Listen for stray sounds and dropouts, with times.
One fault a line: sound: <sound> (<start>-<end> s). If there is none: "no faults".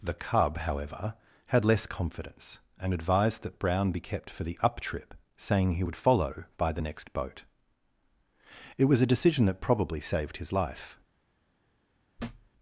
sound: thud (12.2-12.5 s)